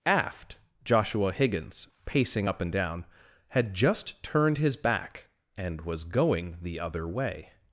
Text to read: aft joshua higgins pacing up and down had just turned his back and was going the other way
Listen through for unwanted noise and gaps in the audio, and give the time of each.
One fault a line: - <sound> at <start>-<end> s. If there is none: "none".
none